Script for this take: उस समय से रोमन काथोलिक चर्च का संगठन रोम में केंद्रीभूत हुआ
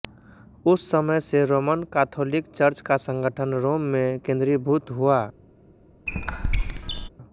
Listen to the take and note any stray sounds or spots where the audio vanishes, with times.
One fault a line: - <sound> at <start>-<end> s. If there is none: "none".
- squeak at 6.1-7.1 s